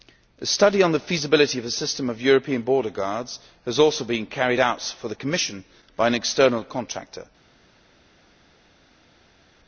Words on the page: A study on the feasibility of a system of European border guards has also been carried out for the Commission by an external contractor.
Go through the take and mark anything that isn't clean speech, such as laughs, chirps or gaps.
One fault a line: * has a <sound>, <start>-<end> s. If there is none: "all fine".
all fine